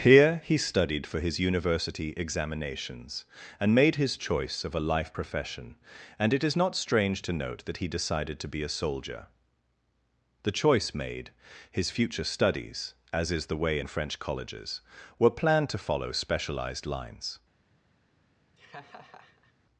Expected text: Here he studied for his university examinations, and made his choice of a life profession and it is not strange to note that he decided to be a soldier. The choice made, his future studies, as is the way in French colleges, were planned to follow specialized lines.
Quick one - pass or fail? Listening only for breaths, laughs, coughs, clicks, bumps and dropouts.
fail